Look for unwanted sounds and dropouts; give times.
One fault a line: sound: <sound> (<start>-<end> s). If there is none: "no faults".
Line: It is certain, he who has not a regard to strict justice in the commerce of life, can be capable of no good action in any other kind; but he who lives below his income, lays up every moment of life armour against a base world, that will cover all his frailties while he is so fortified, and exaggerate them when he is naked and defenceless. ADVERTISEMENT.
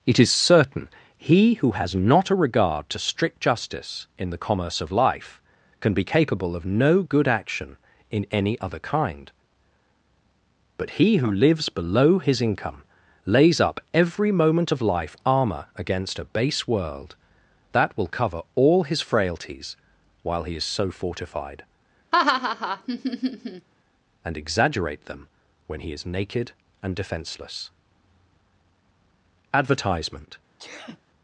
sound: laugh (22.1-23.7 s)
sound: sneeze (30.6-31.0 s)